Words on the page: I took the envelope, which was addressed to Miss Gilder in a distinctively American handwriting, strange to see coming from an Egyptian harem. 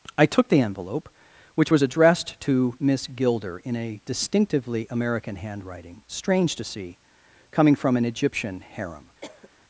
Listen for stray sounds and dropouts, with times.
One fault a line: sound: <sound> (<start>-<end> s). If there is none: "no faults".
sound: cough (9.2-9.5 s)